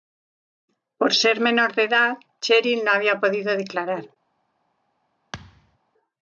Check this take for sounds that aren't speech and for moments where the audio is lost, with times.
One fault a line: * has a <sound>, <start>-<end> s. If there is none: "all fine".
* has a thud, 5.3-5.8 s